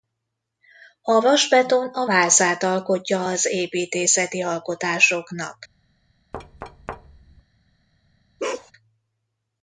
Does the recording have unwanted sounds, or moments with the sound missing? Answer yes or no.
yes